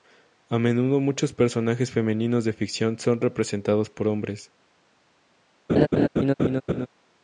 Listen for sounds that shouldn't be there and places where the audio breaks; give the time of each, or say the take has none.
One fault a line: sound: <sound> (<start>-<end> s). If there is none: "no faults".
sound: laugh (5.7-6.9 s)